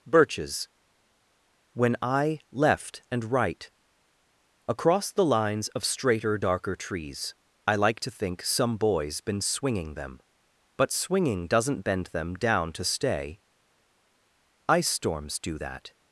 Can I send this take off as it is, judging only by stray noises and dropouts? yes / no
yes